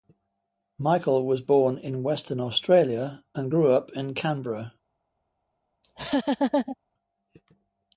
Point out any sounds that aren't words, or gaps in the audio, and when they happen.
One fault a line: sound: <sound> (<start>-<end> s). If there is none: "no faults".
sound: laugh (5.8-6.8 s)